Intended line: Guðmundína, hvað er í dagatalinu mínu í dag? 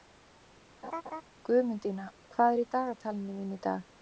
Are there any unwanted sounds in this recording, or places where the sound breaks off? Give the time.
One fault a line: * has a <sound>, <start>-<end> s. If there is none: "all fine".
* has a laugh, 0.8-1.2 s